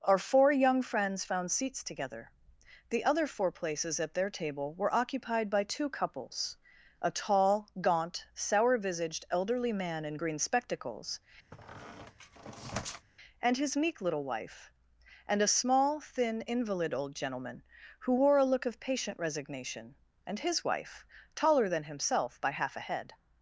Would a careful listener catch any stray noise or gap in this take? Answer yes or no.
yes